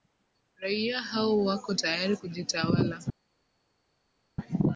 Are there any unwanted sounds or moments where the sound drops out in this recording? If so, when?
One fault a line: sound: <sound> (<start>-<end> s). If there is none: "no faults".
no faults